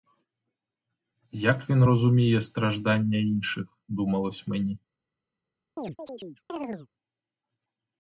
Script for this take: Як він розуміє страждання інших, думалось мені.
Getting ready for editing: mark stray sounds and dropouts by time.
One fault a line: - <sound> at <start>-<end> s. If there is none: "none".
- chirp at 5.8-6.9 s